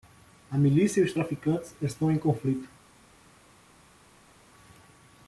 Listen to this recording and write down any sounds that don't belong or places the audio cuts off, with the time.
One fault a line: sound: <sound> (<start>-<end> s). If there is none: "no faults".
no faults